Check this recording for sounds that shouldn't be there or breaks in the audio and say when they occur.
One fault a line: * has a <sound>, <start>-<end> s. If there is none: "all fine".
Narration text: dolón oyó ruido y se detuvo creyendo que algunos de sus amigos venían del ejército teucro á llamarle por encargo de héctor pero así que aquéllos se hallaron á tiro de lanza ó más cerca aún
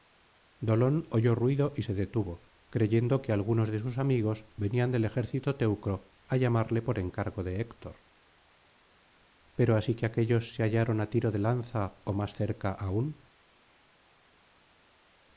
all fine